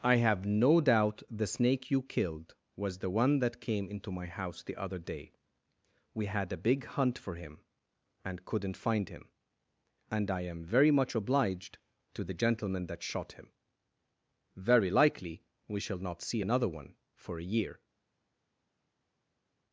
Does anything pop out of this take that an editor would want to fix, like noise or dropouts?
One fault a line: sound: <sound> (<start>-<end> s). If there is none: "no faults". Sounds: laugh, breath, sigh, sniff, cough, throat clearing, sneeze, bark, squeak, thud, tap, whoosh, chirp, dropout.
no faults